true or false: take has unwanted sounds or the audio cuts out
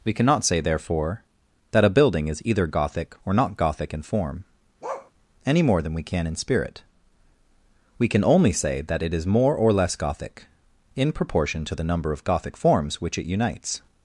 true